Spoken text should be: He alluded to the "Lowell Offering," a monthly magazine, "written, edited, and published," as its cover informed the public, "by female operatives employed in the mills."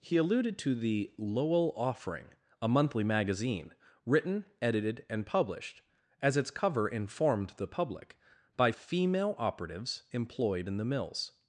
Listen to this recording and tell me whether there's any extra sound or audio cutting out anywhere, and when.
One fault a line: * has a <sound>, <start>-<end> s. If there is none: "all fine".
all fine